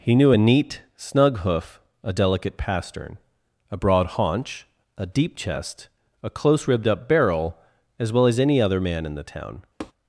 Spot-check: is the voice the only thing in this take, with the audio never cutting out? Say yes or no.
no